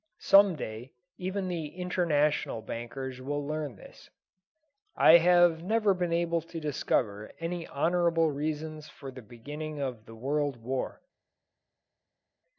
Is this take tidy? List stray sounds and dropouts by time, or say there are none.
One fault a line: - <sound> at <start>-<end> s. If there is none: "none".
none